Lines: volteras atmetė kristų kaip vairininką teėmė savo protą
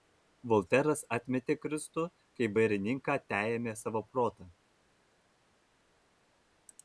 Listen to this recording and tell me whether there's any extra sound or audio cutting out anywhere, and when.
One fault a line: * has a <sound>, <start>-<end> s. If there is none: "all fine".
all fine